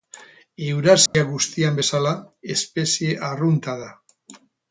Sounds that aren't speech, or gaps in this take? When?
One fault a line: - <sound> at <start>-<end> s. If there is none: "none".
- dropout at 1.1-1.1 s